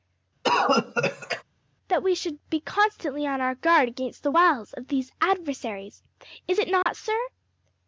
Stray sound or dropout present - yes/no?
yes